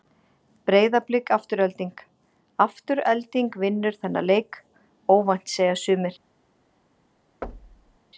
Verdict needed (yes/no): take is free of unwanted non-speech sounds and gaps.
no